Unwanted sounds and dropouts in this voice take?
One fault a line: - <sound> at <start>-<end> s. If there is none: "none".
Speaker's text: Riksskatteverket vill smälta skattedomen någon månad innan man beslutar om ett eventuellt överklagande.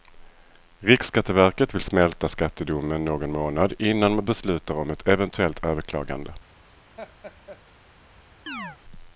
- laugh at 7.0-7.6 s
- chirp at 8.5-8.8 s